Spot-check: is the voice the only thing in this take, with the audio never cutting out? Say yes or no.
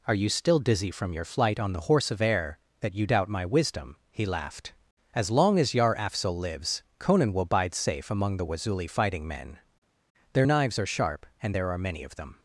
yes